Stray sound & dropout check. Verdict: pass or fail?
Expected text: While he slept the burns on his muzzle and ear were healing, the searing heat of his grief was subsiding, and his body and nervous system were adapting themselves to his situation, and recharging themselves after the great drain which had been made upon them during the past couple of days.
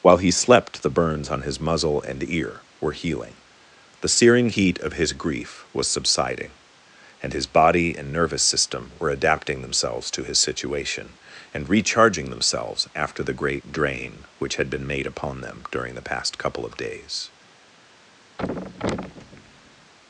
fail